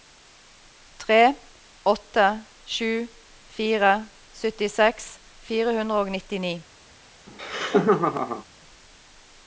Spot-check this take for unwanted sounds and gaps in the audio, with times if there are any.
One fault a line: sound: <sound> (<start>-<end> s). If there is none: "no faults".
sound: laugh (7.3-8.4 s)